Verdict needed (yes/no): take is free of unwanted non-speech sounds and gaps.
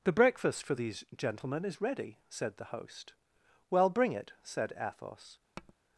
no